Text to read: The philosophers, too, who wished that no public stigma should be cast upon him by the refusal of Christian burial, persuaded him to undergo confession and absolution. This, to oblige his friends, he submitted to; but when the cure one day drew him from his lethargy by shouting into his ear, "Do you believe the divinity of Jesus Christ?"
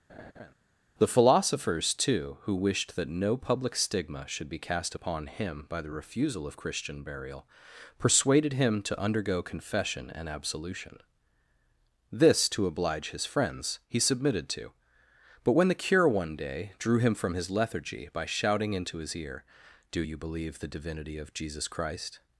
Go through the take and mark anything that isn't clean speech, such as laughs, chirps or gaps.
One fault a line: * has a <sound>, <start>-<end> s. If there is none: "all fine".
* has a laugh, 0.1-0.5 s